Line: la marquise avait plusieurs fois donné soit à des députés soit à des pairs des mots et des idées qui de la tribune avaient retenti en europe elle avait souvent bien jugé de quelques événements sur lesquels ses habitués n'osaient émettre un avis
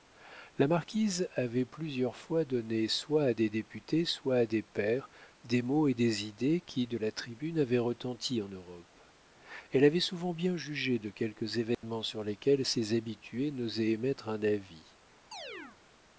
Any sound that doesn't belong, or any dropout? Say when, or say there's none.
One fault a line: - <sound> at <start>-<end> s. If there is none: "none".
- dropout at 11.7-11.8 s
- chirp at 15.3-15.8 s